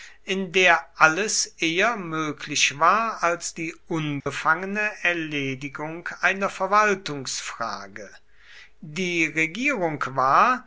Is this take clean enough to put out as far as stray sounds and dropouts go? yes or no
no